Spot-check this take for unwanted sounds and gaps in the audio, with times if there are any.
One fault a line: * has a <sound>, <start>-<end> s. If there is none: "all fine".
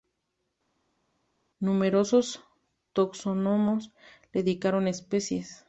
all fine